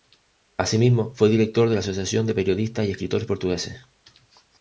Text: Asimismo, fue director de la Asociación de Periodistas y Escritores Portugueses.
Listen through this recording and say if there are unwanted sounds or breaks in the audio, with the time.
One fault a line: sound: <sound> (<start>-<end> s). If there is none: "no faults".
no faults